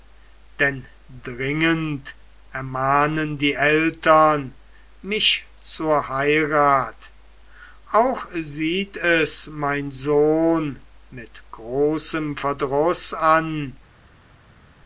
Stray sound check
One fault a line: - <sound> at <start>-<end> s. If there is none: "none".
none